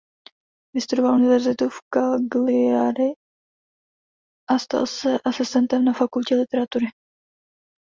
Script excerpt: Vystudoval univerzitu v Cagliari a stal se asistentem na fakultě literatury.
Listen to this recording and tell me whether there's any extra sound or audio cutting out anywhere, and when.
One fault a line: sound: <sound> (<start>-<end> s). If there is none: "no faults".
no faults